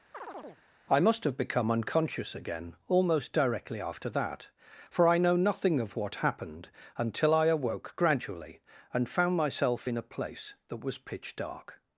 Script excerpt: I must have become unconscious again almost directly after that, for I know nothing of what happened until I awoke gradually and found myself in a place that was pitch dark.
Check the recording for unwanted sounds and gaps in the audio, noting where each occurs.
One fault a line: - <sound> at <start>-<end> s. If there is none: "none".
- chirp at 0.1-0.6 s